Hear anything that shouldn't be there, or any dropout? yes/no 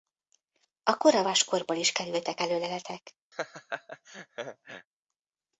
yes